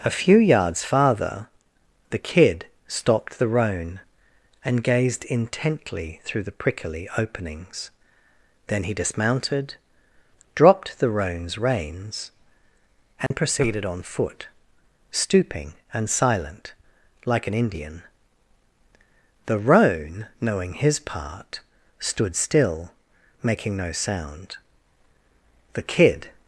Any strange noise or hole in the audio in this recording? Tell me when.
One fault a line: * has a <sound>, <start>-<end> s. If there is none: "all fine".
* has a dropout, 13.3-13.3 s